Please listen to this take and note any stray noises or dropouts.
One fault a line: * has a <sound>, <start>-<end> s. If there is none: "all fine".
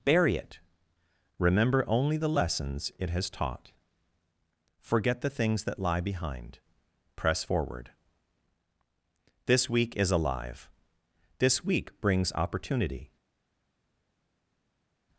all fine